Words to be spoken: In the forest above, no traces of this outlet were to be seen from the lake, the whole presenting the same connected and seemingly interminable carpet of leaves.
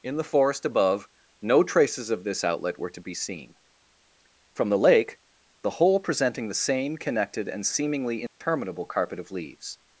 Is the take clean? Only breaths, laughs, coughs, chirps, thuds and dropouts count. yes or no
no